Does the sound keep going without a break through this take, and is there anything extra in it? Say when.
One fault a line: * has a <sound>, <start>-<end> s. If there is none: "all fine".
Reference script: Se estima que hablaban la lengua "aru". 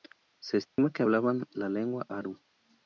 * has a dropout, 0.7-0.8 s